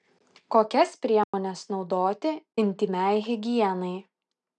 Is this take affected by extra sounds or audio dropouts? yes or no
yes